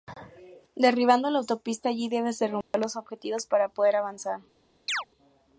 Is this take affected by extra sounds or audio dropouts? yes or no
yes